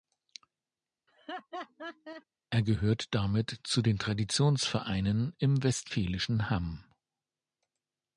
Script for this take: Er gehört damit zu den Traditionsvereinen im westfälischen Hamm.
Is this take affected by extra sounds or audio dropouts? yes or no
yes